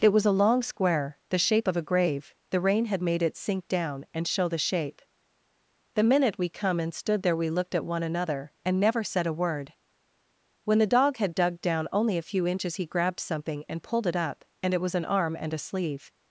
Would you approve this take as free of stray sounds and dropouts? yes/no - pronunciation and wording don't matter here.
yes